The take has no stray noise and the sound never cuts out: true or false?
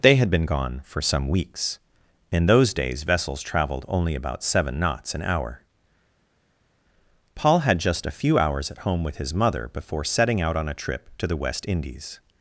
true